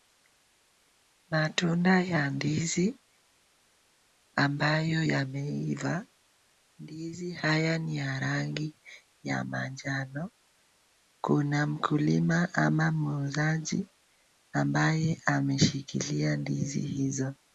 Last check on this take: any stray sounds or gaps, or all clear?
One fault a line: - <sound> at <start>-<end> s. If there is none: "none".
none